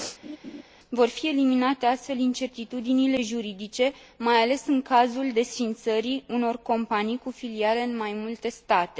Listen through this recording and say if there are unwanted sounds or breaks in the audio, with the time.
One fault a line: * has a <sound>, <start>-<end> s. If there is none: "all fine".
* has a laugh, 0.2-0.6 s